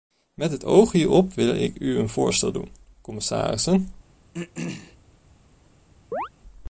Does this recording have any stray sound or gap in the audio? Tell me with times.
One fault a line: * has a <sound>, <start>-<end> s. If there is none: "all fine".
* has a throat clearing, 4.3-5.0 s
* has a chirp, 6.1-6.3 s